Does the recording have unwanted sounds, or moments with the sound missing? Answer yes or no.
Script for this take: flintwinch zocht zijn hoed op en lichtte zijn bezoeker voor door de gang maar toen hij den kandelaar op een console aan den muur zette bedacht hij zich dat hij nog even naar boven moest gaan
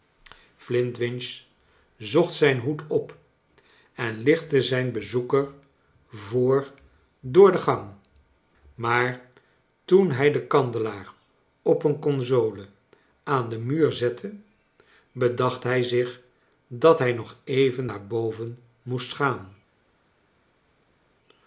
no